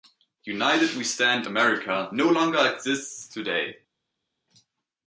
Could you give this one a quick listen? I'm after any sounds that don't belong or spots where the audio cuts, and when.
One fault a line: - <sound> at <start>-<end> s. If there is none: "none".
none